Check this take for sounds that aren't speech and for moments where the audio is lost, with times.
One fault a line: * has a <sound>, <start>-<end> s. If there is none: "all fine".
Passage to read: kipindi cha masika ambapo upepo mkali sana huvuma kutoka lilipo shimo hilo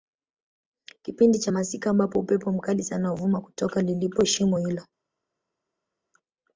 all fine